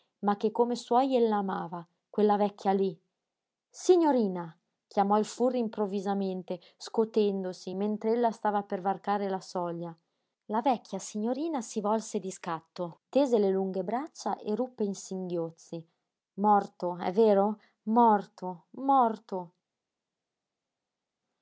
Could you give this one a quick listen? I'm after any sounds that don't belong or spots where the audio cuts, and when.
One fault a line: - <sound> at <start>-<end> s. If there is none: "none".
none